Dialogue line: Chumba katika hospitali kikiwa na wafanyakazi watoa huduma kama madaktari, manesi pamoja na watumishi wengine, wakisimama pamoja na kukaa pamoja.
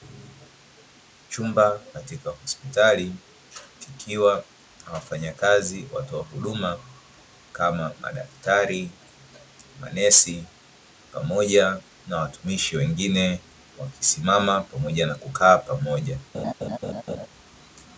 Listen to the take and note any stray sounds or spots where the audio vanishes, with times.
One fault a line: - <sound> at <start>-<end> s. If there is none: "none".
- laugh at 16.3-17.3 s